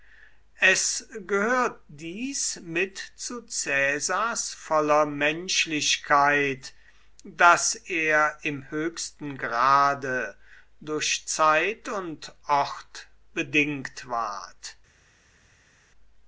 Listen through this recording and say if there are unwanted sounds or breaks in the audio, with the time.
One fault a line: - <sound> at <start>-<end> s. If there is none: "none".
none